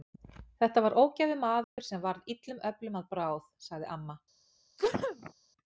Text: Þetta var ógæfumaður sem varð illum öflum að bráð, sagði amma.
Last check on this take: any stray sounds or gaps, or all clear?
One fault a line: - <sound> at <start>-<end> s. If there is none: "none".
- dropout at 1.6-1.8 s
- sneeze at 4.8-5.3 s